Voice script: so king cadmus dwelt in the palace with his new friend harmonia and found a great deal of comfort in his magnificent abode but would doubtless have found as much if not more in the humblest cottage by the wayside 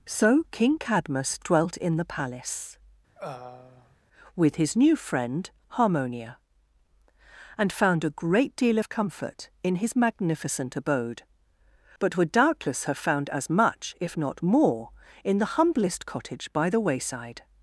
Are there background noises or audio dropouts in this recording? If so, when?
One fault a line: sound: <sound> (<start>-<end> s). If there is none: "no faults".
sound: throat clearing (3.1-4.0 s)